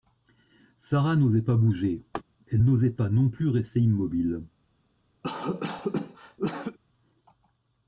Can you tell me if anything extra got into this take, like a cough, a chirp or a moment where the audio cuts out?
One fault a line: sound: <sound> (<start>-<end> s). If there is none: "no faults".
sound: laugh (2.1-2.2 s)
sound: cough (5.2-6.8 s)